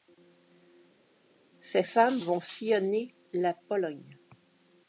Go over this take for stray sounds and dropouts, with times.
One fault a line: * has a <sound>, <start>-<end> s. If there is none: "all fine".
all fine